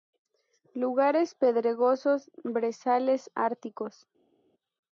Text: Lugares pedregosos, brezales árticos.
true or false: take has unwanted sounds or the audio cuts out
false